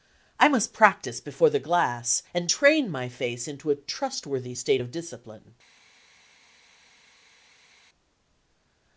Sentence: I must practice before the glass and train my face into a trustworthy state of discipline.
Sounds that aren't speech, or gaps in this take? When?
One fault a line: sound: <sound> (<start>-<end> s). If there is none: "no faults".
no faults